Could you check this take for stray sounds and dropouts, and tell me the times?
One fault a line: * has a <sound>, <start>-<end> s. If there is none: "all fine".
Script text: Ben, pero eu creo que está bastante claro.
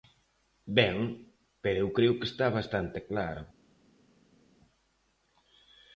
all fine